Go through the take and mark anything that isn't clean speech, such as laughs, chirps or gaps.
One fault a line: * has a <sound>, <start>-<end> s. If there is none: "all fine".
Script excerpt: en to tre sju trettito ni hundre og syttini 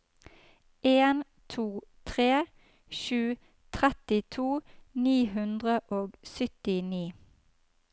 all fine